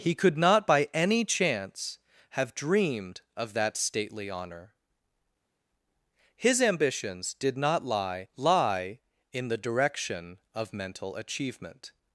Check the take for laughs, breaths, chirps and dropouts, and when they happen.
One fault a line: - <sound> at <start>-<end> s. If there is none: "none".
none